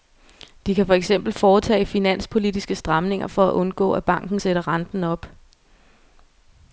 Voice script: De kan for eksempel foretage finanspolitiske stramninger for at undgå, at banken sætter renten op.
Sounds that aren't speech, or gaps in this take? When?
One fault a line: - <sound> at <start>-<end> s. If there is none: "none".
none